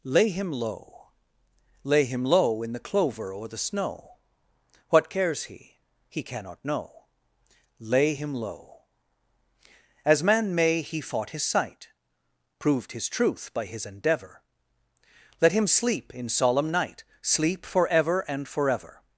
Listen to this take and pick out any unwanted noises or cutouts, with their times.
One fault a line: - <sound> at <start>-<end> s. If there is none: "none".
none